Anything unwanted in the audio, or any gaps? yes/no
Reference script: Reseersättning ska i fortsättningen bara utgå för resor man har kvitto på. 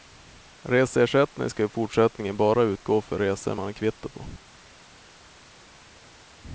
no